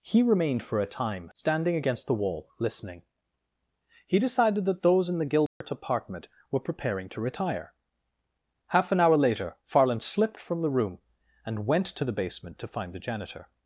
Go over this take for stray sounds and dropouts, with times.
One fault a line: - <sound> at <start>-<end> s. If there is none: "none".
- dropout at 5.5-5.6 s